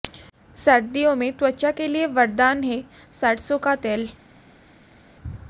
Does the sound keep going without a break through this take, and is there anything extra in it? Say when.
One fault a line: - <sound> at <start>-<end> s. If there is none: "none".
none